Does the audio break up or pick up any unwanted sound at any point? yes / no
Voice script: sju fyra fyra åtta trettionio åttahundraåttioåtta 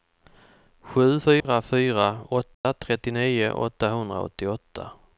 yes